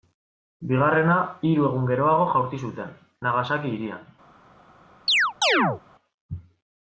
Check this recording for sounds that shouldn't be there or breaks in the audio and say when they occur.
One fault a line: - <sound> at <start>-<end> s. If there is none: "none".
- chirp at 5.1-5.8 s